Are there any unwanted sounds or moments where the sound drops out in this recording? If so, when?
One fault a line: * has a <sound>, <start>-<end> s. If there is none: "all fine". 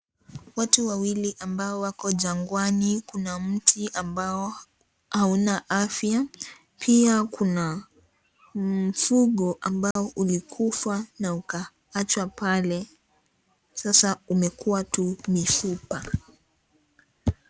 * has a dropout, 9.9-10.0 s